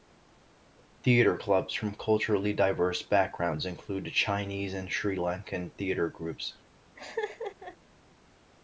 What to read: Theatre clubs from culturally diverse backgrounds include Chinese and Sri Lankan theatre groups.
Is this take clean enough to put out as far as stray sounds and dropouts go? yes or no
no